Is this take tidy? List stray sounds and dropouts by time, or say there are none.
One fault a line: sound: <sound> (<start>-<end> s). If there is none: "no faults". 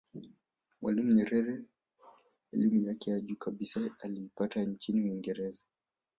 no faults